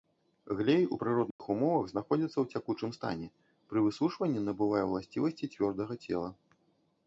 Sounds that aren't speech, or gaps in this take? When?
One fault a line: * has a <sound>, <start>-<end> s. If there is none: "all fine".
* has a dropout, 1.3-1.4 s